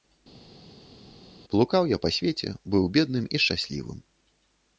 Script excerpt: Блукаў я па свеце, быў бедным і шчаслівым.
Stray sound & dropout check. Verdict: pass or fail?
pass